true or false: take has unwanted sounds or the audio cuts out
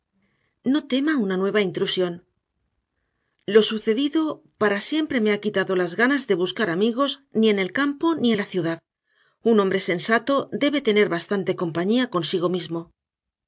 false